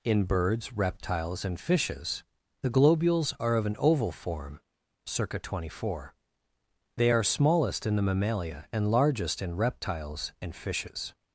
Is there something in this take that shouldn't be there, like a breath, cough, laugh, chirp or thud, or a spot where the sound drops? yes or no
no